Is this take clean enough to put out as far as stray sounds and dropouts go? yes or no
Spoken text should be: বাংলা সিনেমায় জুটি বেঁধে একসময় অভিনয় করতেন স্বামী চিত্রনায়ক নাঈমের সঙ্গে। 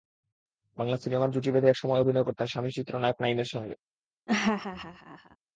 no